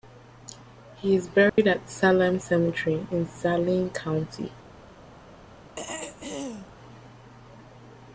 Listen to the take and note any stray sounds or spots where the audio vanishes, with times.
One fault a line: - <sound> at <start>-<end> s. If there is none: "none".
- dropout at 1.5-1.6 s
- throat clearing at 5.8-6.7 s